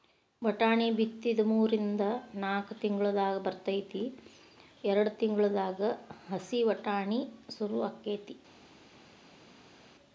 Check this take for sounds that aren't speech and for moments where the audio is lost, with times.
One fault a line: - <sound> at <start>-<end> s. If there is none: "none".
none